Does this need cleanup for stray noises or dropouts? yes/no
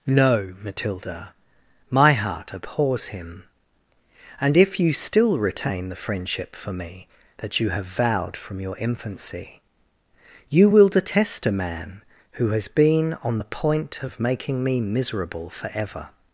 no